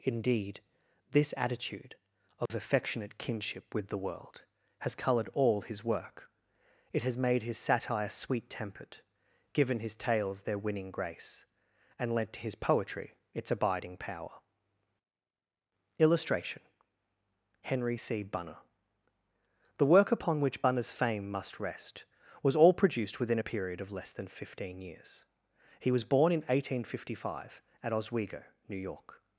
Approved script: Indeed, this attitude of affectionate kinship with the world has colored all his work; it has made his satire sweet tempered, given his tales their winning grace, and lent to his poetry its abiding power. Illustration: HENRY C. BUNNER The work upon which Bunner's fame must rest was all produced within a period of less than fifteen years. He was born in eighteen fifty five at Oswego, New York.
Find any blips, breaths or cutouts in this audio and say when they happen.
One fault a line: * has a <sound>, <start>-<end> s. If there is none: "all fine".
* has a dropout, 2.5-2.5 s